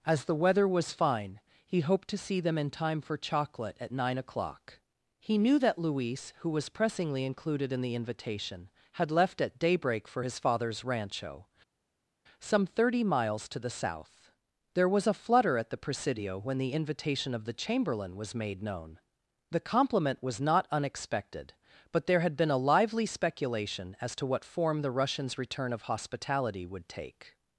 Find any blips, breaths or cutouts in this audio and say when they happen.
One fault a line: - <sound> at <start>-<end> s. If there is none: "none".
none